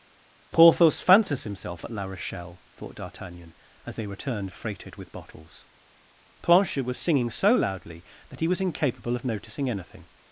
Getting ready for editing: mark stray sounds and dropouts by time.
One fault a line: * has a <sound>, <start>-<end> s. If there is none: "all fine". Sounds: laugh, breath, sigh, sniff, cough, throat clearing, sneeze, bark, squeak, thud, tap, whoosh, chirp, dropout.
all fine